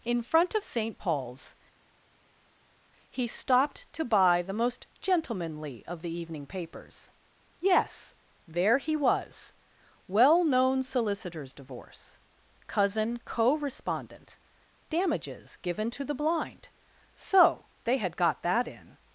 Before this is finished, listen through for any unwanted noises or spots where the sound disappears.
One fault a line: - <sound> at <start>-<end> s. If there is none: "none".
none